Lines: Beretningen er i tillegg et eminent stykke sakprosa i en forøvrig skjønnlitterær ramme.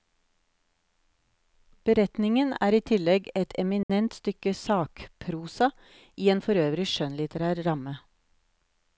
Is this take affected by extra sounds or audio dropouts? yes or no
yes